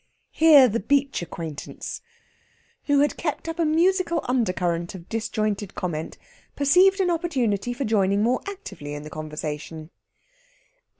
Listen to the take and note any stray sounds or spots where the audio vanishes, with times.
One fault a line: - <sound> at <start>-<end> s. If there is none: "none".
none